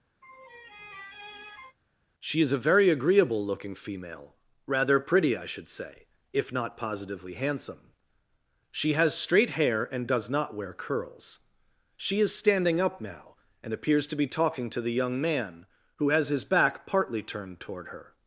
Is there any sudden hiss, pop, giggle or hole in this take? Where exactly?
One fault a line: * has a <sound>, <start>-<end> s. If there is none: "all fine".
* has a laugh, 0.2-1.8 s